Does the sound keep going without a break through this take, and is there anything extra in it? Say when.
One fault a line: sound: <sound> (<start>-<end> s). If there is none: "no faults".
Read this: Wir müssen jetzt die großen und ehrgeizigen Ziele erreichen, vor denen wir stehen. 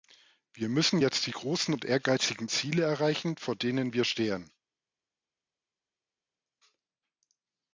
no faults